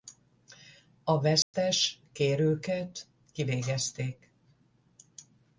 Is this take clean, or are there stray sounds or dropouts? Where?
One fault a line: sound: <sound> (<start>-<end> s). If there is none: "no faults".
sound: dropout (1.4-1.5 s)